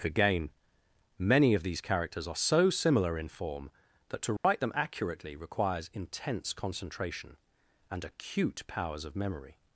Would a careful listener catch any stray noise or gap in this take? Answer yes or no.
yes